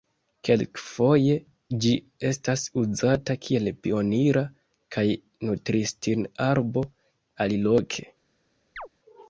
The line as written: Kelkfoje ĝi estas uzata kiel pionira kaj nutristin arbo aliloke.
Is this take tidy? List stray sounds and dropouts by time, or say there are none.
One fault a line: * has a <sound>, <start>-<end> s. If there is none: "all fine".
* has a chirp, 8.8-8.9 s